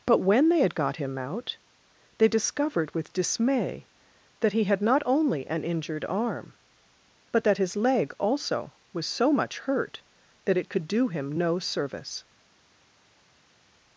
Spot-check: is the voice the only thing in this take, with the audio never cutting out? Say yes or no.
yes